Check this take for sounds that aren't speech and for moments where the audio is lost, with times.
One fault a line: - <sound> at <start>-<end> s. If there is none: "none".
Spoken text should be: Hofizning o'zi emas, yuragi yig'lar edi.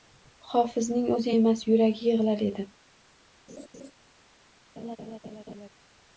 - laugh at 3.5-3.9 s
- laugh at 4.8-5.7 s